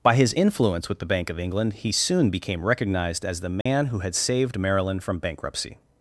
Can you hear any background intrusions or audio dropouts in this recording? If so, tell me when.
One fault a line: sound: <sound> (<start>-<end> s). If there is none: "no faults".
sound: dropout (3.6-3.7 s)